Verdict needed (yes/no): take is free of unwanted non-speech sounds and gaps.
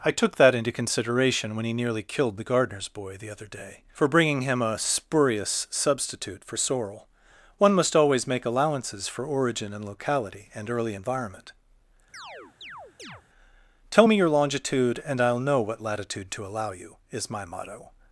no